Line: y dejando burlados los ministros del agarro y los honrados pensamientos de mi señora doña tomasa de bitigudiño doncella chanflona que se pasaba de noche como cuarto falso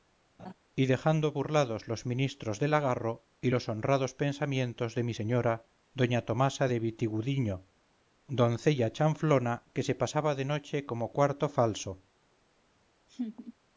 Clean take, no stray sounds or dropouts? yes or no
no